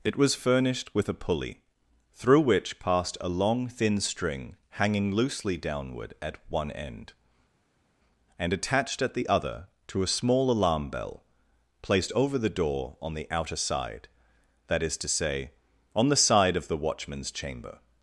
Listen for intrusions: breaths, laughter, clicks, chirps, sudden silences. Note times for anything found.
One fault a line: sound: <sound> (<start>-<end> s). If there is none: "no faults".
no faults